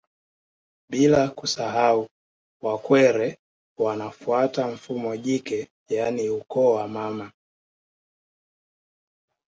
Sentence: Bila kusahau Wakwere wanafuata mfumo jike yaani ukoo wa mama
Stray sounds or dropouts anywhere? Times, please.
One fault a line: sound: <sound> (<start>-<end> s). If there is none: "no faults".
no faults